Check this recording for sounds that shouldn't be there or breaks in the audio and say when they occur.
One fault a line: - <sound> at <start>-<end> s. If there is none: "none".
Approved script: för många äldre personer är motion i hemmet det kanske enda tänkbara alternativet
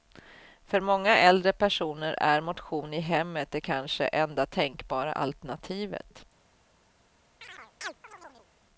- chirp at 7.4-8.5 s